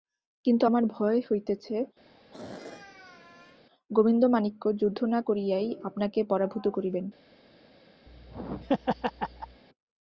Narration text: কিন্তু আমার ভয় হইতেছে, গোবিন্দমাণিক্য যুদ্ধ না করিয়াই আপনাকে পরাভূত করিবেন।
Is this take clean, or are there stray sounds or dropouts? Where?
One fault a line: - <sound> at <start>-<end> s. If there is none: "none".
- throat clearing at 2.1-3.6 s
- laugh at 8.1-9.6 s